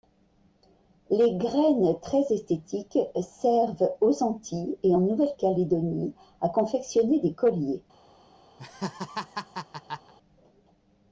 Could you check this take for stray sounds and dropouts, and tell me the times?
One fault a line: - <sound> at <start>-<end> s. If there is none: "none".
- laugh at 8.6-10.1 s